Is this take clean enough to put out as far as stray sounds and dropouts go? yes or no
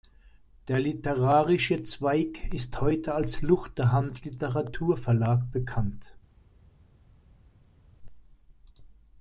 yes